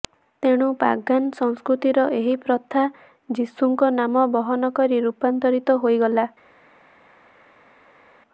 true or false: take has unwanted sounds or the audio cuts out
false